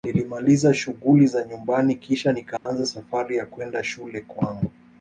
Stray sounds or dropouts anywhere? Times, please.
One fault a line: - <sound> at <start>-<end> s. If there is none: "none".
- dropout at 2.6-2.7 s